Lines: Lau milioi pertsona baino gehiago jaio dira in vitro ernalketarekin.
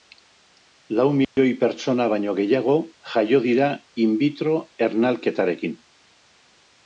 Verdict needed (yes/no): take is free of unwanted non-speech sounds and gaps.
no